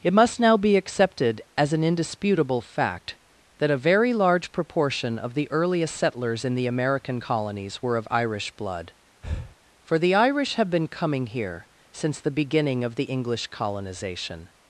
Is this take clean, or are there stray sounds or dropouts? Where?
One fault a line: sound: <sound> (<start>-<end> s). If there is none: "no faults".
sound: breath (9.2-9.6 s)